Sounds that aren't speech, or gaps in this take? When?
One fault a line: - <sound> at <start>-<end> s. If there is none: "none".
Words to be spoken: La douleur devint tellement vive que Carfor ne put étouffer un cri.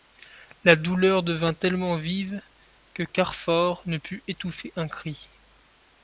none